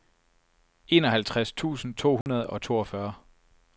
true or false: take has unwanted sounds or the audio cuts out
true